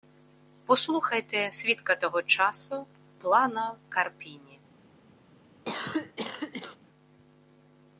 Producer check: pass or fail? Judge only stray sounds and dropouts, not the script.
fail